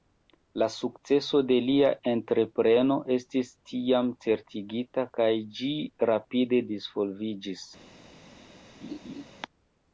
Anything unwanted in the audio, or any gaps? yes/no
yes